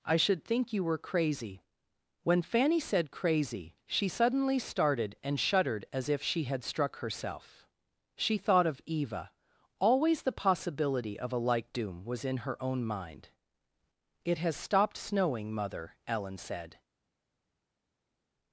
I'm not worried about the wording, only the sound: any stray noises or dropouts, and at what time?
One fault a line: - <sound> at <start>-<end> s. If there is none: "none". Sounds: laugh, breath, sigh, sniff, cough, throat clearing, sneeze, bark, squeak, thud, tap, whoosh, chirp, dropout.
none